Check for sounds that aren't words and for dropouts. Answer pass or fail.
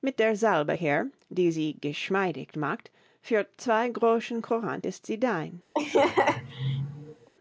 fail